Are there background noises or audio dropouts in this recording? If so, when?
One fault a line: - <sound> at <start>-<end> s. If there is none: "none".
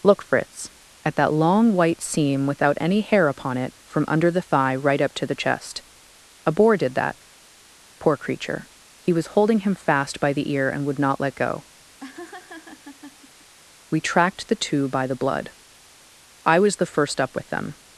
- laugh at 12.0-13.5 s